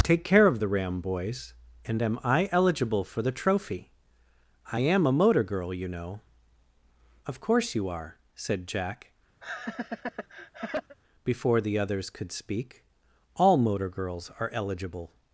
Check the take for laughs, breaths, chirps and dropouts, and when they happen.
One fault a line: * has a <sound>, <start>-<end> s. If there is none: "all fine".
* has a laugh, 9.4-11.0 s